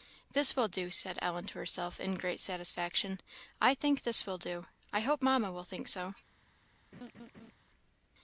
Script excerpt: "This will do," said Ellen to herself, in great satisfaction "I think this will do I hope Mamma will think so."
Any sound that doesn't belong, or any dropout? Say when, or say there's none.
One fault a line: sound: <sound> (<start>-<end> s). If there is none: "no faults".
sound: laugh (6.9-7.5 s)